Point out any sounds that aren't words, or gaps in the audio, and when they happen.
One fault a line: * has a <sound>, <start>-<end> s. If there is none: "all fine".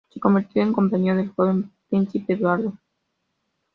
all fine